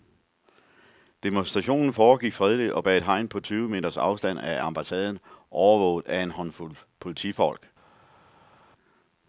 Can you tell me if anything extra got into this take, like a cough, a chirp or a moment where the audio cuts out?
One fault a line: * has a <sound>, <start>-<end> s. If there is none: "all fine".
all fine